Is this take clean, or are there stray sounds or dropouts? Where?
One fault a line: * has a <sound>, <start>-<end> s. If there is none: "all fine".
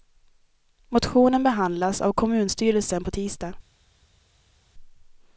all fine